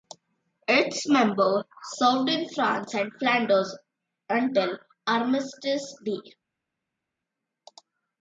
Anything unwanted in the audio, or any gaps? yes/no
no